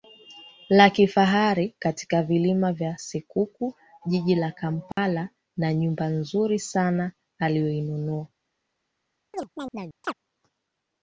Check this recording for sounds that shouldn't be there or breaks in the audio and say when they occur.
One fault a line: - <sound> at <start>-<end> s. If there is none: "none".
- dropout at 4.9-5.0 s
- chirp at 9.3-10.1 s